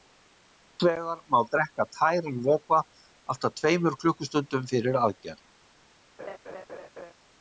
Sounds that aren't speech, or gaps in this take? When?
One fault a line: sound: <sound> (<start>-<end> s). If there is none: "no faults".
sound: laugh (6.2-7.1 s)